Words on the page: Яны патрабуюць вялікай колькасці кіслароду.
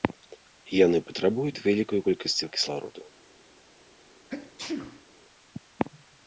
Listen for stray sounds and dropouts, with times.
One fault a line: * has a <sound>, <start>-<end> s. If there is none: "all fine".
* has a sneeze, 4.3-5.1 s